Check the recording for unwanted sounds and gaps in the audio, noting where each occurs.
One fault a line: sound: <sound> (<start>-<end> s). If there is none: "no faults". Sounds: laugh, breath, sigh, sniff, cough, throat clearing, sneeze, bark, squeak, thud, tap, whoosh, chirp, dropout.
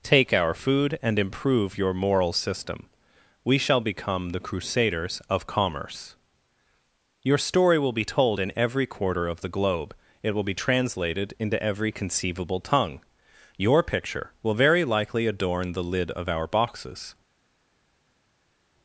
no faults